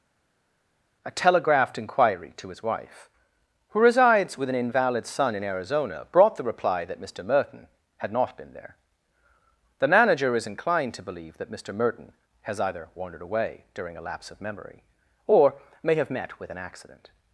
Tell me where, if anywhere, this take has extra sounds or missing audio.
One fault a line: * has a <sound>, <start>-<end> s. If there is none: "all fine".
all fine